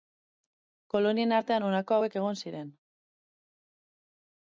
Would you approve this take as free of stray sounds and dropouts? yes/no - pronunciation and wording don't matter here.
yes